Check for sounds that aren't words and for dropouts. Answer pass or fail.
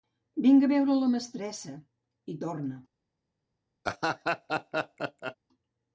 fail